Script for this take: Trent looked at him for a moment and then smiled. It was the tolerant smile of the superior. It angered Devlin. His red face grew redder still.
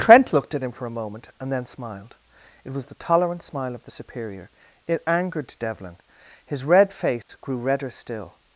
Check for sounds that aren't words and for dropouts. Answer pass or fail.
fail